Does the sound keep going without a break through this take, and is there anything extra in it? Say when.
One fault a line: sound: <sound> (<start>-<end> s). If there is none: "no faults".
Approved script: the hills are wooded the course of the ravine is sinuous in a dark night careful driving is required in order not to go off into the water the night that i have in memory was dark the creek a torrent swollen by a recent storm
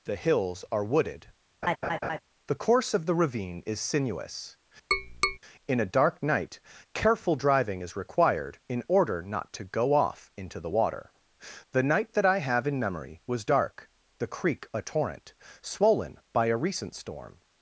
sound: laugh (1.6-2.2 s)
sound: tap (4.9-5.4 s)